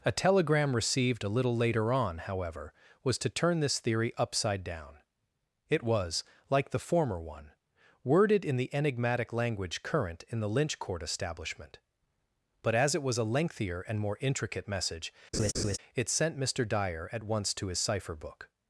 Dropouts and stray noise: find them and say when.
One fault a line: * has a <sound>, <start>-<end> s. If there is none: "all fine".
* has a laugh, 15.3-15.8 s